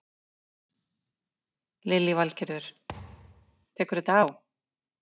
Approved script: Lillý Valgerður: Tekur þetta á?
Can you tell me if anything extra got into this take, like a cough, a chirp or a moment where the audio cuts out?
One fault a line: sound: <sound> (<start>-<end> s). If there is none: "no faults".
sound: thud (2.9-3.7 s)